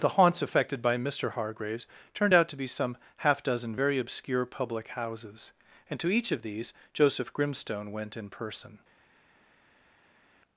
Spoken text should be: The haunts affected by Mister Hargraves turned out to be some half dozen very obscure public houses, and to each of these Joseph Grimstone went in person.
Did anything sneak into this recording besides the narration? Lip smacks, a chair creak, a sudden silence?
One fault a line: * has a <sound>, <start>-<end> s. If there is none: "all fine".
all fine